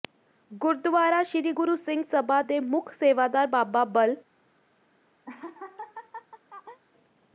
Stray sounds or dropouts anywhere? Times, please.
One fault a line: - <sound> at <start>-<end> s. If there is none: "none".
- laugh at 5.2-6.8 s